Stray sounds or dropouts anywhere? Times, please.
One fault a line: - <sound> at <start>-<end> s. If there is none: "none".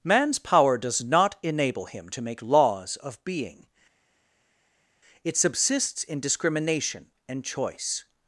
none